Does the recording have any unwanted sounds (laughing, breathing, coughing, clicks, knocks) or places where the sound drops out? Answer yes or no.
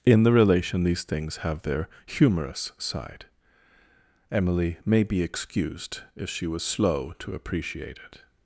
no